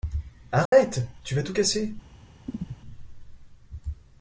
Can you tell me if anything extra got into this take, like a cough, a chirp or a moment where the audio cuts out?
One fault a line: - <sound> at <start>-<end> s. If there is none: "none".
- dropout at 0.7-0.7 s
- chirp at 2.5-2.8 s